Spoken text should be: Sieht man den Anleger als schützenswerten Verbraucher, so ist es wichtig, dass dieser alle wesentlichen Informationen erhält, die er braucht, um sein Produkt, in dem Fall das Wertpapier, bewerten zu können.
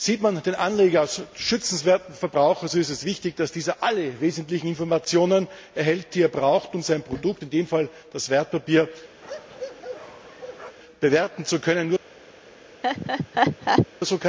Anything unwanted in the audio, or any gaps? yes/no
yes